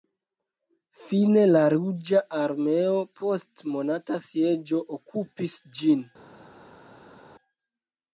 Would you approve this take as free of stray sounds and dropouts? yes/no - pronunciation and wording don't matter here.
yes